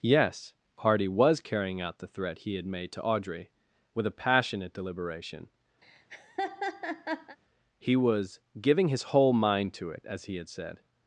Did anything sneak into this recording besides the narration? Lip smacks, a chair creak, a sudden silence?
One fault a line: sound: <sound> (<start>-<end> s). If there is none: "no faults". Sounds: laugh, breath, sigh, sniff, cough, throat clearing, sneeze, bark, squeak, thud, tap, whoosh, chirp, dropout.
sound: laugh (5.8-7.4 s)